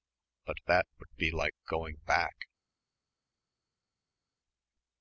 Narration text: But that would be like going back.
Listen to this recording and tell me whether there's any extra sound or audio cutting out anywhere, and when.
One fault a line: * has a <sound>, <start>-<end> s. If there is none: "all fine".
all fine